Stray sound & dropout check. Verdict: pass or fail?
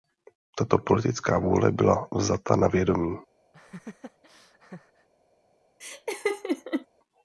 fail